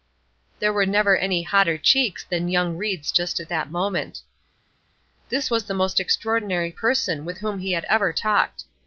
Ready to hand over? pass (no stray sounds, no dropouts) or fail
pass